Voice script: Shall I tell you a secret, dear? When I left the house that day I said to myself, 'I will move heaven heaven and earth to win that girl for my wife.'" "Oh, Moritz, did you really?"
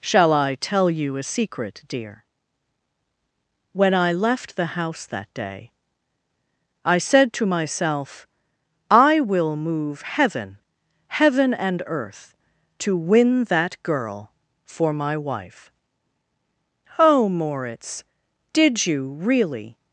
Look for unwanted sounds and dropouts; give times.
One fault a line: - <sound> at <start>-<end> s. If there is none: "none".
none